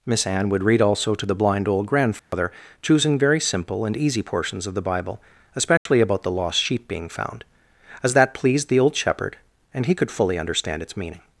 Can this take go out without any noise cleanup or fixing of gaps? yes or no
no